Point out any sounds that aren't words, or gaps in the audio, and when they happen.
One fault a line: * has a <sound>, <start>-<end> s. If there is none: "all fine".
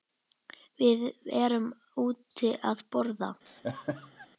* has a laugh, 3.5-4.3 s